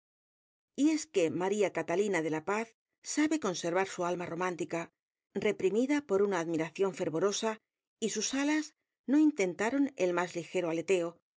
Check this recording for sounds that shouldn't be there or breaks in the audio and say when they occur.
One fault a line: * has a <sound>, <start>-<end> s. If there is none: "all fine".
all fine